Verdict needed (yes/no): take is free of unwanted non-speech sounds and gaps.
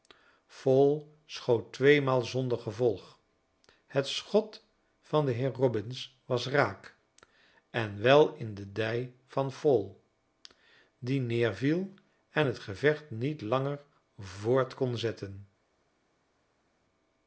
yes